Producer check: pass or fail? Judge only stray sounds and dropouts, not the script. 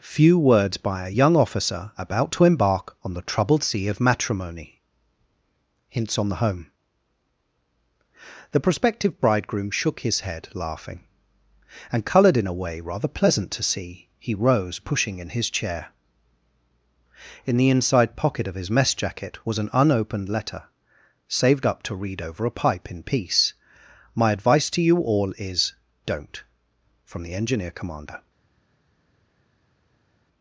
pass